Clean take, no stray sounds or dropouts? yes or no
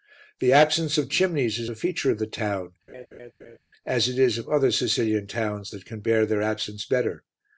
no